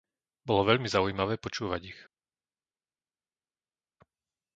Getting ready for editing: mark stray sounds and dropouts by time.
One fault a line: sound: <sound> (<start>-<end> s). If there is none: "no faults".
no faults